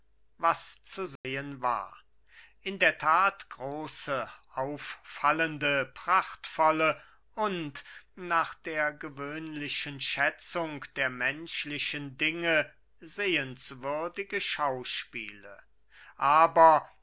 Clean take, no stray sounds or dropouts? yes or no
no